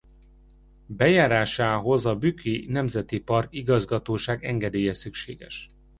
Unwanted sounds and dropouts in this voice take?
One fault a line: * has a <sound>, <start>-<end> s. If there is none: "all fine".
all fine